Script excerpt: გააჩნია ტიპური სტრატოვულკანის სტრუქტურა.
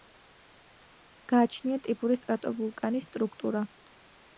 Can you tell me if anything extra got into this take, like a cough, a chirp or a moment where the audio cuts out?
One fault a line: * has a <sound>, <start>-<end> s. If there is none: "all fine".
all fine